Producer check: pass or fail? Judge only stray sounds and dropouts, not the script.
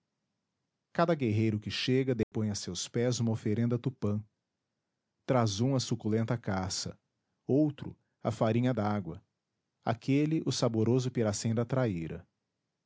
fail